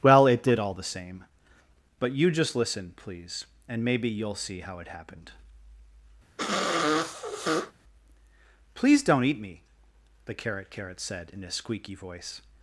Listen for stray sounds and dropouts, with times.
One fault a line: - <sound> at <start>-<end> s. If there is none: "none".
- sniff at 6.4-7.7 s